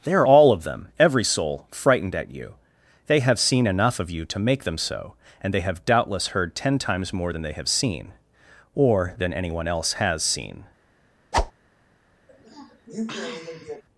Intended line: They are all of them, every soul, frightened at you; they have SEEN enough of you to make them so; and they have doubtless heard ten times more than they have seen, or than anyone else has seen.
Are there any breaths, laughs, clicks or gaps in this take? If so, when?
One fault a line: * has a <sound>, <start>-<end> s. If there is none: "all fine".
* has a whoosh, 11.3-11.5 s
* has a sniff, 12.3-13.8 s